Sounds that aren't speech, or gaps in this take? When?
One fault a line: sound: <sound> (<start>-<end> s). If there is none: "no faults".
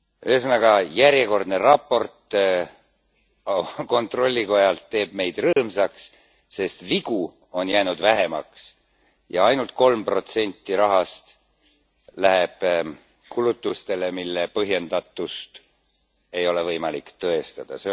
sound: dropout (5.5-5.6 s)